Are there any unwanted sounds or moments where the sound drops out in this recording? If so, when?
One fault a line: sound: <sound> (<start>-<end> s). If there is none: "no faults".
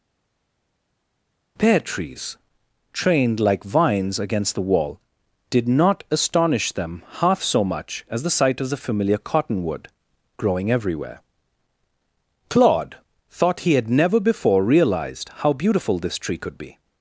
no faults